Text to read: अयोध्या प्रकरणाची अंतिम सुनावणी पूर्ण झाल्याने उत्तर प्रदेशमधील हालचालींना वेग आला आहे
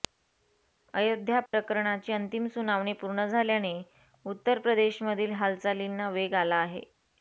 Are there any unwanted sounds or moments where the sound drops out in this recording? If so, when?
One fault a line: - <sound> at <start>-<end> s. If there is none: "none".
- dropout at 1.5-1.5 s